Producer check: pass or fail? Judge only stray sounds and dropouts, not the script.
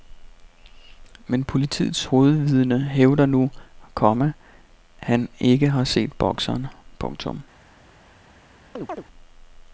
fail